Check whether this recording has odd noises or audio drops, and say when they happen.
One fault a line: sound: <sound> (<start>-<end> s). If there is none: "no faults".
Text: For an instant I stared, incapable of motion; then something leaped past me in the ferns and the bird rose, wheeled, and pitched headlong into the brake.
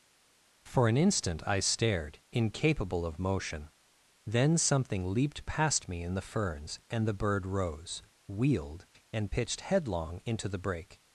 no faults